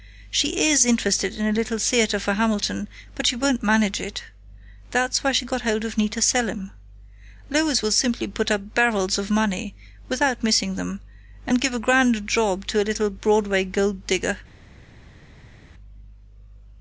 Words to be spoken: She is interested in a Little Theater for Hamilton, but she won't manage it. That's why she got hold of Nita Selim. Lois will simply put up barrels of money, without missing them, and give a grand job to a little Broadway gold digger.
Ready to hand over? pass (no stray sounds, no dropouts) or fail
pass